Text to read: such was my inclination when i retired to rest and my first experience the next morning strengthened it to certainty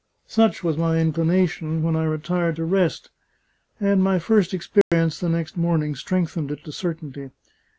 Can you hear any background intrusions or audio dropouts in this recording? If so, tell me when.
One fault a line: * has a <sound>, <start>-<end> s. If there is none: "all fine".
* has a dropout, 4.8-4.9 s